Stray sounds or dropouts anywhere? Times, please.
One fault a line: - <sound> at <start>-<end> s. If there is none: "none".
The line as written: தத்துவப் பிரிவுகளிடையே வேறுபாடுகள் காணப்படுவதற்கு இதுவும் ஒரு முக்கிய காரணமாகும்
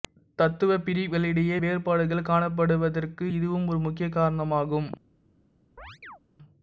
- chirp at 5.8-6.2 s